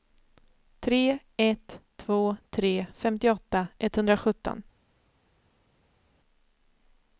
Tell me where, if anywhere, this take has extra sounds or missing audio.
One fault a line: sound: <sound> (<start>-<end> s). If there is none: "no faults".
no faults